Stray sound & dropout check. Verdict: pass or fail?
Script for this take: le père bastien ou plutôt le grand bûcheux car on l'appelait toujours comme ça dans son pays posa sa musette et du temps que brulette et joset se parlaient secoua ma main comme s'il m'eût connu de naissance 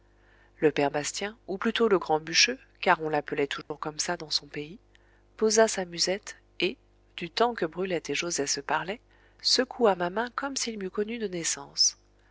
fail